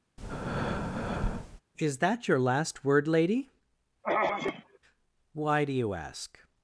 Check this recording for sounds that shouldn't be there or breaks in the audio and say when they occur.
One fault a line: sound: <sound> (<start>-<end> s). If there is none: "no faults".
sound: breath (0.2-1.6 s)
sound: throat clearing (4.0-4.8 s)